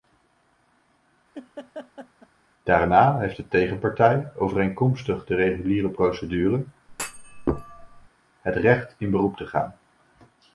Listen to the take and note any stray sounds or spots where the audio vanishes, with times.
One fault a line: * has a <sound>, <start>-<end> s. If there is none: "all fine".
* has a laugh, 1.3-2.3 s
* has a thud, 6.9-8.1 s